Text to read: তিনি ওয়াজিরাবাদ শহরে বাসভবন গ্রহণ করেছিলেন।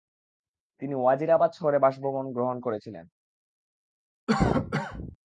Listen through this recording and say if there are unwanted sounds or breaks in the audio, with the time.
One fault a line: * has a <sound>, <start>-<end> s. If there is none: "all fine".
* has a cough, 4.3-5.2 s